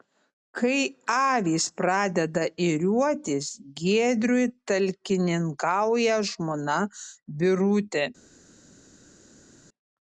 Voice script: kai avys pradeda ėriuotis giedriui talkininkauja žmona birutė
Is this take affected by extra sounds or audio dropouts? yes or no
no